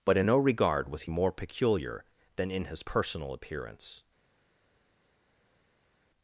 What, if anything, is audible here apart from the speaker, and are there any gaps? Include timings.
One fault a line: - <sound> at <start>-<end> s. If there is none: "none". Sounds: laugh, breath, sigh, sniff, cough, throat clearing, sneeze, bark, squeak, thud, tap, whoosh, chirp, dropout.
none